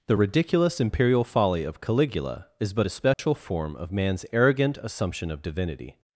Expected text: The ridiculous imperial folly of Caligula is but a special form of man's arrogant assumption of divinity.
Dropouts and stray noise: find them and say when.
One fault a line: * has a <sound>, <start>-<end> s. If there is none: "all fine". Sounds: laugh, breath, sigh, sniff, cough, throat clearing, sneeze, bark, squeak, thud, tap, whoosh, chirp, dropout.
* has a dropout, 3.1-3.2 s